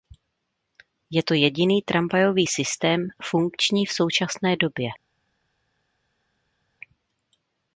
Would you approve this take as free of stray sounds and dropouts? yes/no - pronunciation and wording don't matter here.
yes